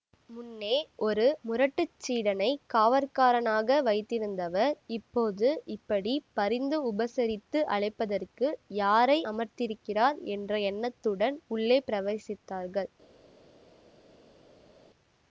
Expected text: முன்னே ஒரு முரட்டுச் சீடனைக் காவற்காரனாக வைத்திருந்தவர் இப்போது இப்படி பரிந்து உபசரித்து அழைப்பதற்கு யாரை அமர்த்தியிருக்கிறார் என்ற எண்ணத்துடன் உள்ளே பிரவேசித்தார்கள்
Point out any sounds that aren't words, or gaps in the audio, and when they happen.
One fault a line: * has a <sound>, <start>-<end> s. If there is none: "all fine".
all fine